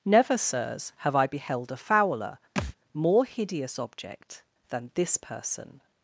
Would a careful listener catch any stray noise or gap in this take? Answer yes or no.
yes